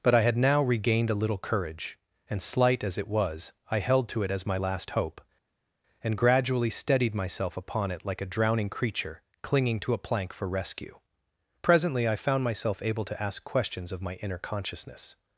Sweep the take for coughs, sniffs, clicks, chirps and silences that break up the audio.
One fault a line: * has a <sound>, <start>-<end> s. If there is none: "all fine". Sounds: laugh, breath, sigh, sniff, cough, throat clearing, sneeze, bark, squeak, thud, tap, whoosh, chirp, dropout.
all fine